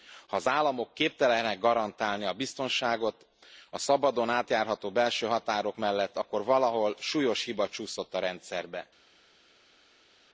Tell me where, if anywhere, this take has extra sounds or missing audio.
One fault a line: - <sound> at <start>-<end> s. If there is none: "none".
none